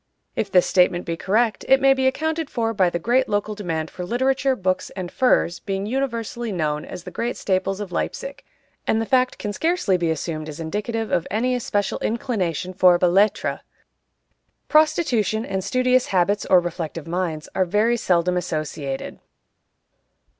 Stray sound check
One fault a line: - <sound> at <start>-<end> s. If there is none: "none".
none